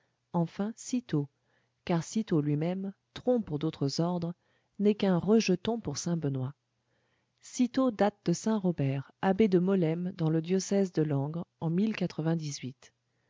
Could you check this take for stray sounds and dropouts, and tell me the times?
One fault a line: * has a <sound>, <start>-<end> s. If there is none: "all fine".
all fine